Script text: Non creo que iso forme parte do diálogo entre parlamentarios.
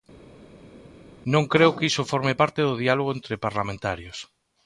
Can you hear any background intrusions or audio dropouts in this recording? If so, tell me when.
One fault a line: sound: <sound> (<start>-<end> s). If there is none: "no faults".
no faults